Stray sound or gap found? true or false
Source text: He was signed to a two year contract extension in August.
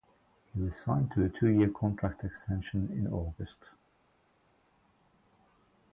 false